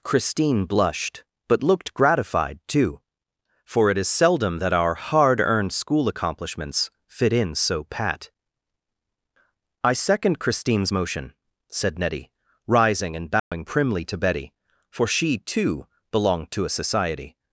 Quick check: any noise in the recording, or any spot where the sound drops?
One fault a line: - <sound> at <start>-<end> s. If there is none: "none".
- dropout at 13.4-13.5 s